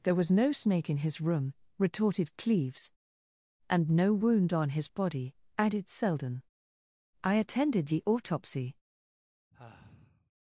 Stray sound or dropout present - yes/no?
yes